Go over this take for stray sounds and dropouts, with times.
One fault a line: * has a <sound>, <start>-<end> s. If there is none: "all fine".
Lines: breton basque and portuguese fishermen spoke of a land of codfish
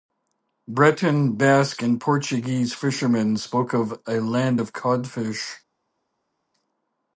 all fine